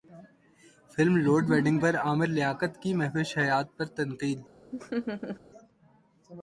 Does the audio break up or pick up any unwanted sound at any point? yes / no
yes